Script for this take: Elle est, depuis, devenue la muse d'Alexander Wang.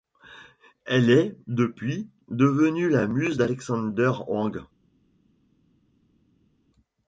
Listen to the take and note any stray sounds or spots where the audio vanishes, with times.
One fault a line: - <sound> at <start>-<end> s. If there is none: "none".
none